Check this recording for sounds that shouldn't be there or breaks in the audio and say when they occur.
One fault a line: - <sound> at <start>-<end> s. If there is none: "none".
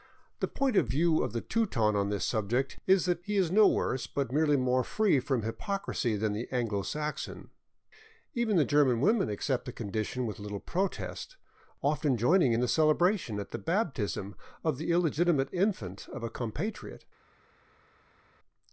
none